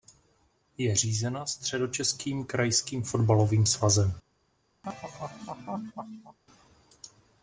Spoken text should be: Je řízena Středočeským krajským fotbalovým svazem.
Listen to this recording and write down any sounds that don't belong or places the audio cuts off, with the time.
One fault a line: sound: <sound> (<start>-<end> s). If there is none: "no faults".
sound: laugh (4.8-6.4 s)